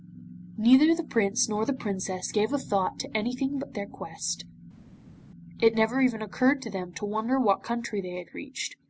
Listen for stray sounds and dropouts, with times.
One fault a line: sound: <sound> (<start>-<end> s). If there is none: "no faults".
no faults